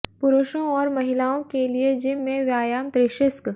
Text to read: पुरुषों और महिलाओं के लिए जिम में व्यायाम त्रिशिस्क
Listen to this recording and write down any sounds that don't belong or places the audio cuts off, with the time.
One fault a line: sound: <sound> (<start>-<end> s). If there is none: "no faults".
no faults